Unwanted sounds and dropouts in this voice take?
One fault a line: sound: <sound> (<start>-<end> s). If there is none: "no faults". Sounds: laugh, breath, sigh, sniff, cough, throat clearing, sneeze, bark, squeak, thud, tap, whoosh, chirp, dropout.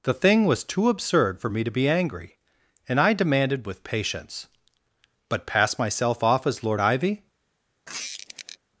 sound: squeak (7.9-8.6 s)